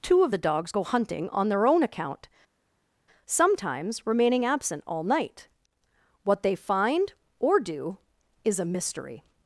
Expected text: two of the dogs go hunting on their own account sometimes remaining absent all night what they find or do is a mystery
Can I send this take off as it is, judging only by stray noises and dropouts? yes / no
yes